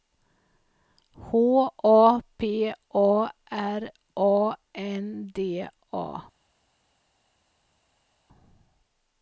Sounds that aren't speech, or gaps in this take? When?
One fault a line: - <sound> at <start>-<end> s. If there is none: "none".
none